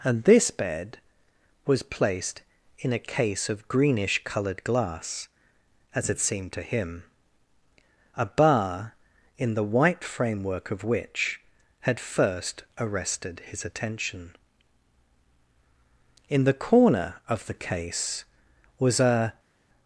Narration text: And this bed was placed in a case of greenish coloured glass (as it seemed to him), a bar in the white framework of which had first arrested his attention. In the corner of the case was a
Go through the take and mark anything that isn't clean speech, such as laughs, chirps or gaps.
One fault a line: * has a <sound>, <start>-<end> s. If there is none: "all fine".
all fine